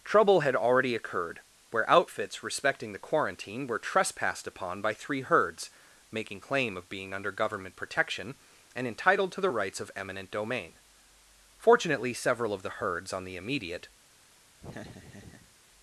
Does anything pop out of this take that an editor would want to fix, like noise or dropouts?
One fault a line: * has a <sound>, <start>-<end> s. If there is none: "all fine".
* has a laugh, 14.6-15.5 s